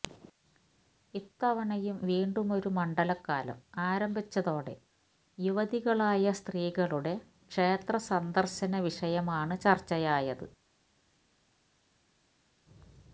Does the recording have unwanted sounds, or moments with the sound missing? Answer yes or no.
no